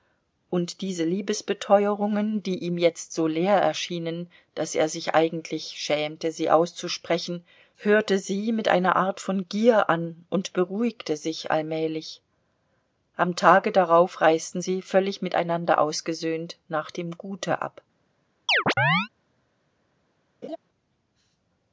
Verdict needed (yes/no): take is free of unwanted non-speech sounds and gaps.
no